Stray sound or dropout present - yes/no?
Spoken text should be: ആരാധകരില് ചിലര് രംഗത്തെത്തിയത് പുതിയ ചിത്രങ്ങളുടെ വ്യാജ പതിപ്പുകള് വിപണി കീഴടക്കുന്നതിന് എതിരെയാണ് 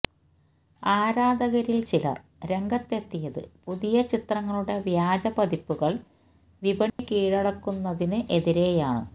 yes